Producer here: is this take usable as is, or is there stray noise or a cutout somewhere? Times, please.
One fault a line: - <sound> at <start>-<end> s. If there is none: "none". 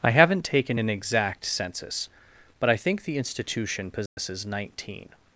- dropout at 4.1-4.2 s